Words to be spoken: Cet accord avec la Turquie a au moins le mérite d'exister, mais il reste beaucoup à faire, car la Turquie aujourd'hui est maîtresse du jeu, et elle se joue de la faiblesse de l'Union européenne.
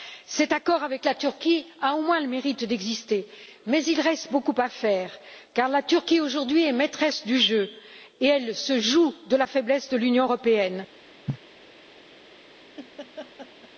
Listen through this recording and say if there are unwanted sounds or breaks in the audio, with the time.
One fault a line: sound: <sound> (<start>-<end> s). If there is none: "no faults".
sound: cough (11.3-11.4 s)
sound: laugh (12.8-13.7 s)